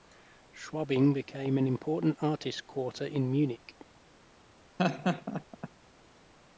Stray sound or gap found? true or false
true